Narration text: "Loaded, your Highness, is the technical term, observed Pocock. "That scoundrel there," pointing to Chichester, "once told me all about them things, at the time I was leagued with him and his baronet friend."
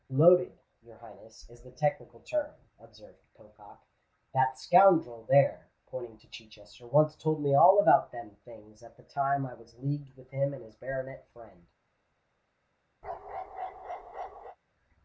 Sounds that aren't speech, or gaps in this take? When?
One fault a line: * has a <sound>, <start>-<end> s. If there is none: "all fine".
* has a bark, 13.0-14.6 s